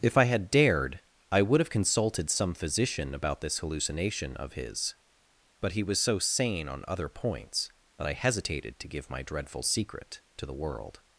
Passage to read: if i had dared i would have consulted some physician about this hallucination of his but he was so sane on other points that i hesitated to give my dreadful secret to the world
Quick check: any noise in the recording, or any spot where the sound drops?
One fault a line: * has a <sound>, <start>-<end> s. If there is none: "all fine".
all fine